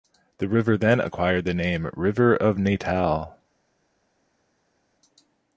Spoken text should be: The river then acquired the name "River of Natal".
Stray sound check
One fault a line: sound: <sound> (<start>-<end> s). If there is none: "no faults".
no faults